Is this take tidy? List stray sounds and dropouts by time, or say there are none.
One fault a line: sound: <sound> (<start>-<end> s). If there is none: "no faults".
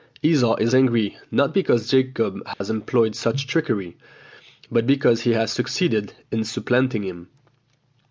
sound: dropout (2.5-2.6 s)